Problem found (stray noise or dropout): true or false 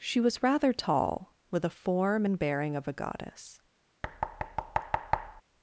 true